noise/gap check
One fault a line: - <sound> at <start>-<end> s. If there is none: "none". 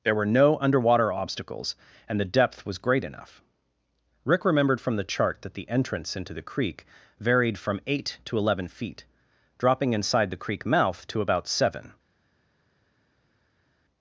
none